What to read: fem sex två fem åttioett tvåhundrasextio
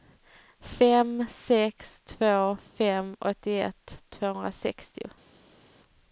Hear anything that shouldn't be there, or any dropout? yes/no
no